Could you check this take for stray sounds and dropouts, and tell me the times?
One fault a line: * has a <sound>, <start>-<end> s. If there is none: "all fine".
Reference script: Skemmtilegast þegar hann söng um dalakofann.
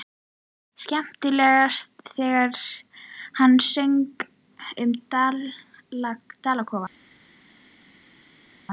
all fine